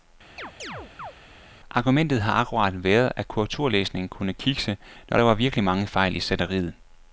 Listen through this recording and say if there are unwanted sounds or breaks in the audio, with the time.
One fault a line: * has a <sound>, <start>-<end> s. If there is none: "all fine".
* has a chirp, 0.4-1.1 s